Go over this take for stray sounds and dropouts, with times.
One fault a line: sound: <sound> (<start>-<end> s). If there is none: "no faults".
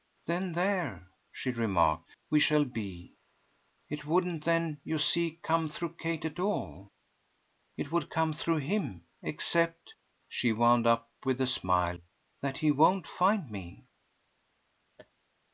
sound: laugh (15.0-15.1 s)